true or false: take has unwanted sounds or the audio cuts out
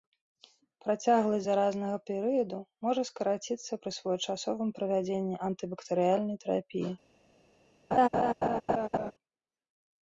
true